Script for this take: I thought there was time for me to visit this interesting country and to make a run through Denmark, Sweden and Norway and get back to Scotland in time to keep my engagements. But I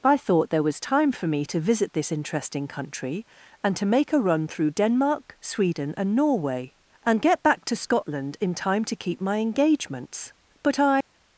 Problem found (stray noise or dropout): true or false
true